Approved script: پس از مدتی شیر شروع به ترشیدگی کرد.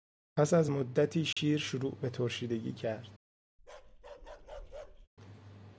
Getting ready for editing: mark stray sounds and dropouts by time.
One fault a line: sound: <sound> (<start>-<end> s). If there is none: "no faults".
sound: dropout (1.3-1.4 s)
sound: bark (3.6-5.1 s)